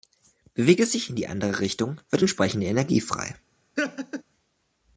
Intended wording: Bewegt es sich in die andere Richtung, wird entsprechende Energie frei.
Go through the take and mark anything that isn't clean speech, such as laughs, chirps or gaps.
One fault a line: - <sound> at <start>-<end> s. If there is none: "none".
- laugh at 3.8-4.2 s